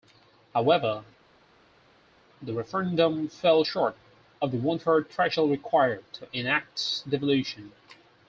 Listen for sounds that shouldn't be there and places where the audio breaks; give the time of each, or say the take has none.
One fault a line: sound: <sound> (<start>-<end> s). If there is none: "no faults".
no faults